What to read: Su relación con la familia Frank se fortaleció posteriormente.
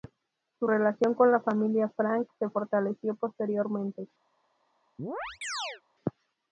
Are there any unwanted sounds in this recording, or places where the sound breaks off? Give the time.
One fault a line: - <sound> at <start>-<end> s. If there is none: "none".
- chirp at 5.0-5.8 s